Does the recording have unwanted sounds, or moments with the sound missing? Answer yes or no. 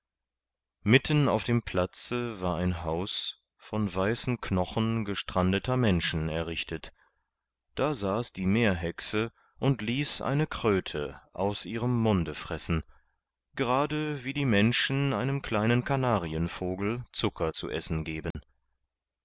yes